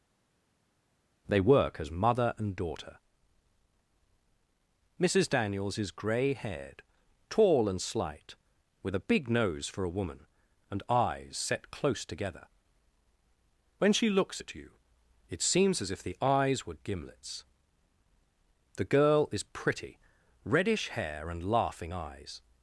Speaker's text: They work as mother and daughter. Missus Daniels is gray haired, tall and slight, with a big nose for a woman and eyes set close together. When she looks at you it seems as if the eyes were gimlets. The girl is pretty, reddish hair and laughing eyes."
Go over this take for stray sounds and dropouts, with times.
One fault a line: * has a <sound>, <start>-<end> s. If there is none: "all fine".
all fine